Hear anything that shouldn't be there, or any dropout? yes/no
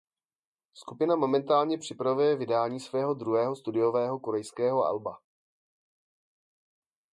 no